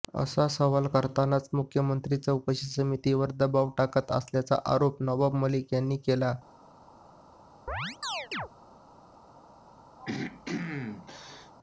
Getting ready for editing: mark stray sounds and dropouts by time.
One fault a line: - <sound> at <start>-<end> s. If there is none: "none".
- chirp at 7.7-8.5 s
- throat clearing at 10.0-11.5 s